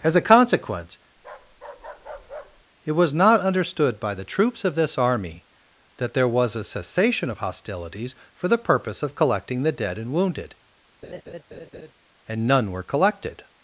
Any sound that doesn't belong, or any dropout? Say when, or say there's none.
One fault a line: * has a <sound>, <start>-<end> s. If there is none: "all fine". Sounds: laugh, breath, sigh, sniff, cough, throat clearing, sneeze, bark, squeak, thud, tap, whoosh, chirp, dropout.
* has a bark, 1.2-2.7 s
* has a laugh, 11.0-11.9 s